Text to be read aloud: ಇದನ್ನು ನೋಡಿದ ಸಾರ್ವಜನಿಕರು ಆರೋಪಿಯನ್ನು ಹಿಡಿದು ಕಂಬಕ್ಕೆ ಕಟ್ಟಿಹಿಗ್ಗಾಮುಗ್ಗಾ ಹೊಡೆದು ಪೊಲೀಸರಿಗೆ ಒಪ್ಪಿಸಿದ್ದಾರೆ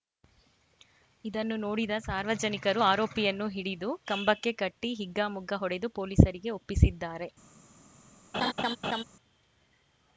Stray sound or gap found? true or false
true